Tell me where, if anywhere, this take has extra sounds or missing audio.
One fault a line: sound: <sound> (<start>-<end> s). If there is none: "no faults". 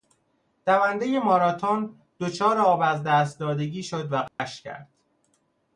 sound: dropout (4.3-4.4 s)